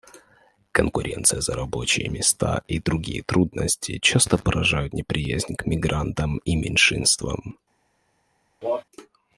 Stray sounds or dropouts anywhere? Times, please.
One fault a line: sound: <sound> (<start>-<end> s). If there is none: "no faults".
sound: cough (8.6-8.8 s)